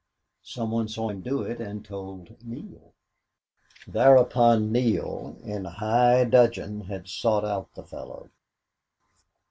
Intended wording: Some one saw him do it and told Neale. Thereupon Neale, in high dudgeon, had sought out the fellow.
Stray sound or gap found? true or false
false